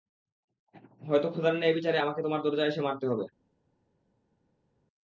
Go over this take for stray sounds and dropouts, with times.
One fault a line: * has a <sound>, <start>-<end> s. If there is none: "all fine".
all fine